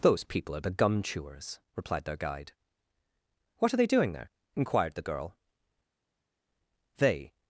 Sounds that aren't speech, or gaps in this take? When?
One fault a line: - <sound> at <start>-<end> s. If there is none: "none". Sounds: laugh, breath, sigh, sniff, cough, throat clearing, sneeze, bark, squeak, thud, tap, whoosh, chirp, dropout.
none